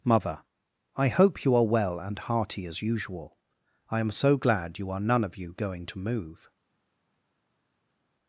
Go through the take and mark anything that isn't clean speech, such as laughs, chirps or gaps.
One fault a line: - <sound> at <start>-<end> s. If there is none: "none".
none